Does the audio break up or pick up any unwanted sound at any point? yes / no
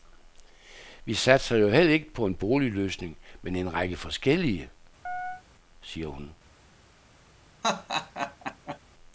yes